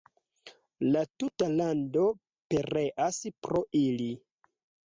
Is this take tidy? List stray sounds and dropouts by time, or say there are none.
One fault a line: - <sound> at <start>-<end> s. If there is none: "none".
none